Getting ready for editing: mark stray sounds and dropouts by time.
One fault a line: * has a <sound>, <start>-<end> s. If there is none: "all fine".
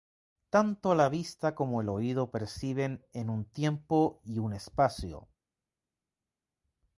all fine